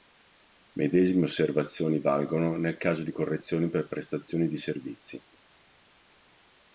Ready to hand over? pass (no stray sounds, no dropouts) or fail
pass